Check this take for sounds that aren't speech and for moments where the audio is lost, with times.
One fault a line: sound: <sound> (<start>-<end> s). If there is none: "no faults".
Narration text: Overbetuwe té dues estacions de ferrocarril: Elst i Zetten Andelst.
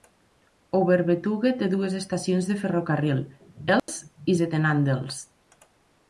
sound: dropout (3.8-3.9 s)